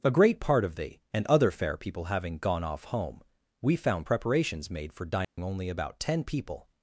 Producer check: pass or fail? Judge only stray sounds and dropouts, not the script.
fail